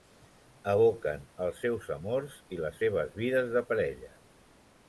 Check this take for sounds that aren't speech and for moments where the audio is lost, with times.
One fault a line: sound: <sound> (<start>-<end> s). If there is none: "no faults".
no faults